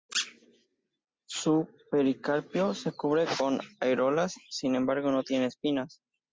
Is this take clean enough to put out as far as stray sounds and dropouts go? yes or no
yes